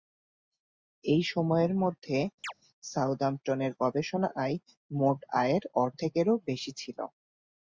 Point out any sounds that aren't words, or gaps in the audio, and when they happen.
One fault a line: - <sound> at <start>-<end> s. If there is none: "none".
- chirp at 2.4-2.5 s